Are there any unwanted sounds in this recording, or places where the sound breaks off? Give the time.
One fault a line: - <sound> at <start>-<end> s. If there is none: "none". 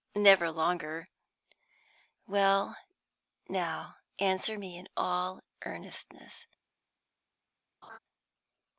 - laugh at 7.8-8.0 s